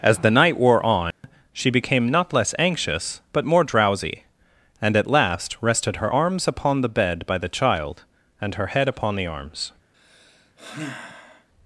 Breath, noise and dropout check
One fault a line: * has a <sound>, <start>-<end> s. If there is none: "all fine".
* has a dropout, 1.1-1.2 s
* has a sigh, 9.9-11.5 s